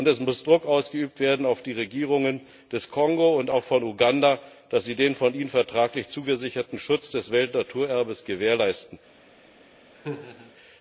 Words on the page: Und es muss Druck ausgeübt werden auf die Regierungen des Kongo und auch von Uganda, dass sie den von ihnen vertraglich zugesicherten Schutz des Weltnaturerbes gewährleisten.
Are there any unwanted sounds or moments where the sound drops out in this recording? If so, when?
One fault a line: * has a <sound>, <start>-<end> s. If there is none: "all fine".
* has a laugh, 9.9-10.5 s